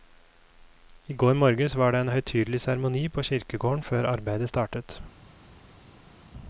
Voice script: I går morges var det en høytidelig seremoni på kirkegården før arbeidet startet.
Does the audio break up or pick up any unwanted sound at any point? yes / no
no